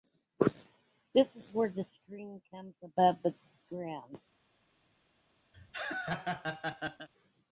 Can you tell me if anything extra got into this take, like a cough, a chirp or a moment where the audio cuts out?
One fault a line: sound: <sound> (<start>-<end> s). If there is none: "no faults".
sound: laugh (5.5-7.1 s)